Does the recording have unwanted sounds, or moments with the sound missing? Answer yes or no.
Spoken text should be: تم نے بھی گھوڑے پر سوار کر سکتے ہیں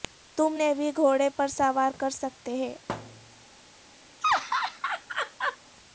yes